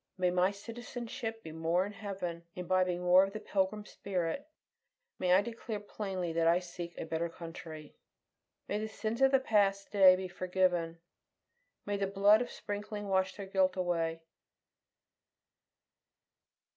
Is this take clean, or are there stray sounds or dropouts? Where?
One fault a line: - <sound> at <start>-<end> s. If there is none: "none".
none